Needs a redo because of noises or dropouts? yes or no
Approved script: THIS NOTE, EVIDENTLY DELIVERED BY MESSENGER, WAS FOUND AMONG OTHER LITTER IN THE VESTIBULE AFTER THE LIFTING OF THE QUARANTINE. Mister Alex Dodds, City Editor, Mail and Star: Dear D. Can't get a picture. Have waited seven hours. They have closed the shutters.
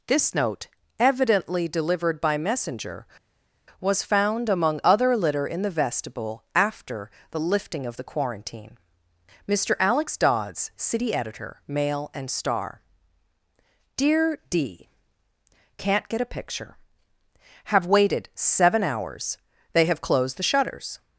no